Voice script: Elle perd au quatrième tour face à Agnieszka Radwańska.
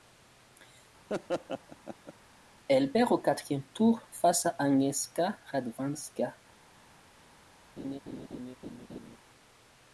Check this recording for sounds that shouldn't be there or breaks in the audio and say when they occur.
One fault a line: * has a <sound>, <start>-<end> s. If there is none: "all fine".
* has a laugh, 1.1-2.1 s
* has a laugh, 7.8-9.2 s